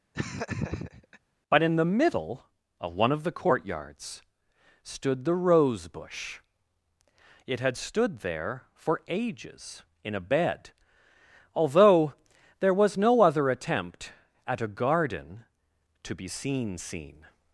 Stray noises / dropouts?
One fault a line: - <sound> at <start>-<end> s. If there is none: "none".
- laugh at 0.1-1.2 s